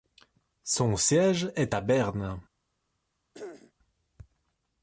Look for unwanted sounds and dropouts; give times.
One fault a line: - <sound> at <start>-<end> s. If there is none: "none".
- throat clearing at 3.3-3.7 s